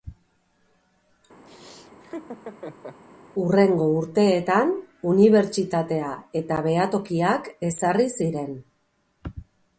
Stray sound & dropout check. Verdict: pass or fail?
fail